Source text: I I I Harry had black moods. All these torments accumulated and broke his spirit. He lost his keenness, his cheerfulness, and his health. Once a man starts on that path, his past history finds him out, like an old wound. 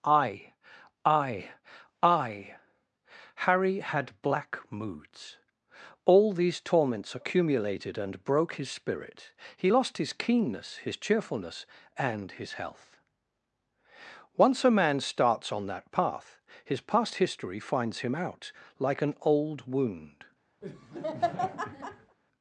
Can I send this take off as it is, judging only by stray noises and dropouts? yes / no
no